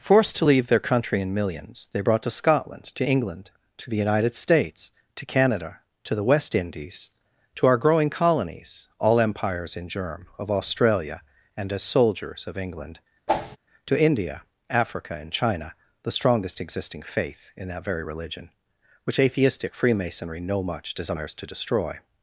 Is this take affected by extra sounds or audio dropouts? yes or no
yes